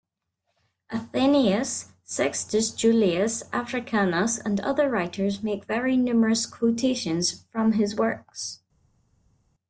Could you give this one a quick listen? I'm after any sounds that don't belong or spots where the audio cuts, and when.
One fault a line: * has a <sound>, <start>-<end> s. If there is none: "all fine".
all fine